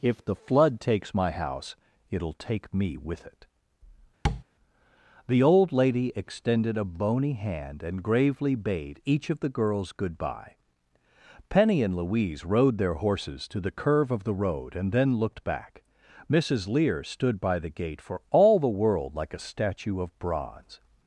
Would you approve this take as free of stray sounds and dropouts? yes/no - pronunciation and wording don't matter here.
no